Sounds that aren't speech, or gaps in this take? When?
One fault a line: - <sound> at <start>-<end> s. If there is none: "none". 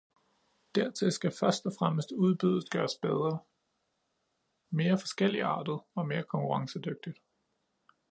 none